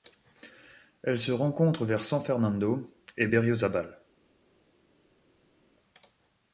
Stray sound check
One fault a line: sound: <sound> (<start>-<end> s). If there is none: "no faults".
no faults